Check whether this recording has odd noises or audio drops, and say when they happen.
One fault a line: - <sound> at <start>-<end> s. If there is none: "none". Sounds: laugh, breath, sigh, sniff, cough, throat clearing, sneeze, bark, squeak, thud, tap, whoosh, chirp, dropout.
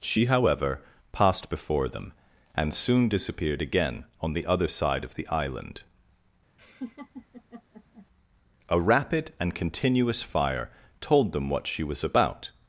- laugh at 6.6-8.1 s